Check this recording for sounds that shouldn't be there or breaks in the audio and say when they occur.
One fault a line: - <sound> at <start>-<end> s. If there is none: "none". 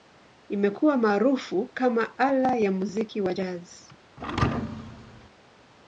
- thud at 4.2-5.3 s